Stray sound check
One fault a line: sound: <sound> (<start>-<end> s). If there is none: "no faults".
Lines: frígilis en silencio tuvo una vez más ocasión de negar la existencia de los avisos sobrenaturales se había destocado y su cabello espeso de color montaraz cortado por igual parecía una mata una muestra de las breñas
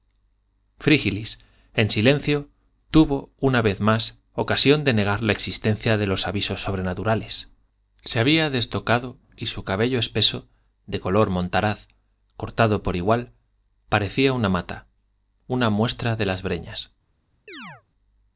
sound: chirp (17.5-17.8 s)